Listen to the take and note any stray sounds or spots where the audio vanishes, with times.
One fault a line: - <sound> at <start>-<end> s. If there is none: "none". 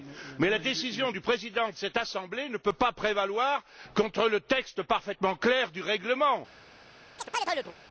- chirp at 7.2-7.8 s